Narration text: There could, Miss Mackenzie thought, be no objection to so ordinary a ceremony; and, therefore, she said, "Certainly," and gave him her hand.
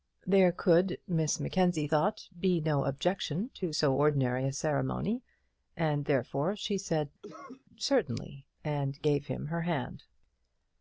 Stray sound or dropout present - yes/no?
yes